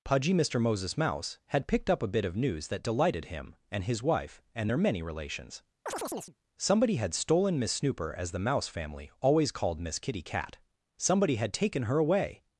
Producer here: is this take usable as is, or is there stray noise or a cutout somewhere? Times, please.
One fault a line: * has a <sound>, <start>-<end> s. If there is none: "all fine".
* has a chirp, 5.9-6.4 s